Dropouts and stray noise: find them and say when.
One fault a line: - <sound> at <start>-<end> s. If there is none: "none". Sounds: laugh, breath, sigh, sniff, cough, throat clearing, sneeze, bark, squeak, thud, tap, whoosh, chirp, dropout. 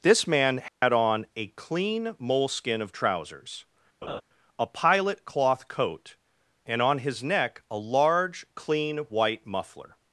- dropout at 0.7-0.8 s
- laugh at 4.0-4.2 s